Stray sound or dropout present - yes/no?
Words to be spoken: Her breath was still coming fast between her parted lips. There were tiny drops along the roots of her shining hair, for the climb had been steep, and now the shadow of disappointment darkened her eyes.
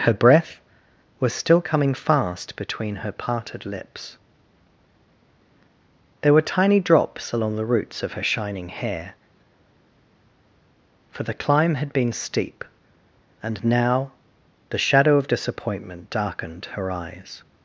no